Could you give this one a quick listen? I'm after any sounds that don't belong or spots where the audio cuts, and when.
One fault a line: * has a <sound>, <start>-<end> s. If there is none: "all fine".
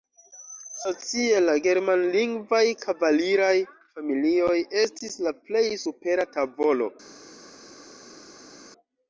all fine